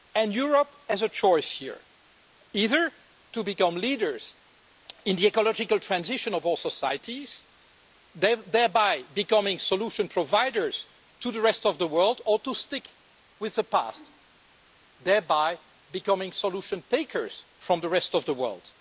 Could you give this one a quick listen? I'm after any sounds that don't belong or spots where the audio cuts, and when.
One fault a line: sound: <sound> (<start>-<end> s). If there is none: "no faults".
no faults